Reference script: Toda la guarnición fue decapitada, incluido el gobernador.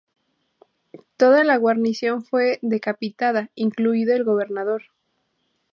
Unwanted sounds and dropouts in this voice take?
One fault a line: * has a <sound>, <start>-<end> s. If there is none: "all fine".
all fine